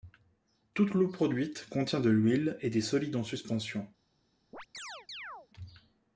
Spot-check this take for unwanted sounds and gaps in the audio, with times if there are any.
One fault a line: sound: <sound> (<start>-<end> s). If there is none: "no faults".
sound: chirp (4.5-5.5 s)